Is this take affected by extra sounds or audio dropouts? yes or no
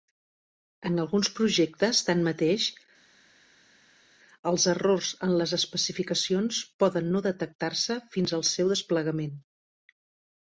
no